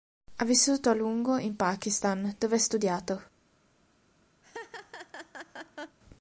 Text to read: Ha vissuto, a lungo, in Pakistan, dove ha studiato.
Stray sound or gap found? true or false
true